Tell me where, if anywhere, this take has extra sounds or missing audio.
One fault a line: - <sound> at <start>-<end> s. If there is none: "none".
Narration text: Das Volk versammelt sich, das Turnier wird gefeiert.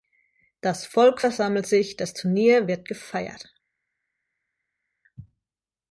none